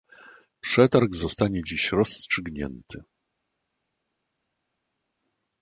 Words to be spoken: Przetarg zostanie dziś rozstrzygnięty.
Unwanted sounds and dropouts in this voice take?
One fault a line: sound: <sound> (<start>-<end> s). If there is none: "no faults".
no faults